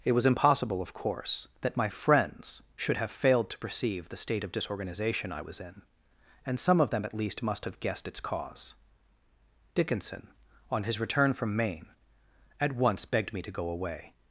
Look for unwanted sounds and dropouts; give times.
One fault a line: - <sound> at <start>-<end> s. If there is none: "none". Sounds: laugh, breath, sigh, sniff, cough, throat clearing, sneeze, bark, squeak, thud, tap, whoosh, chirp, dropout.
none